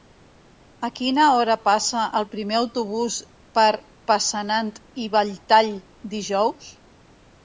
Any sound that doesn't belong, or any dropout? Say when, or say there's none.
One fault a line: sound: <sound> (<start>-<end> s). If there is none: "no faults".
no faults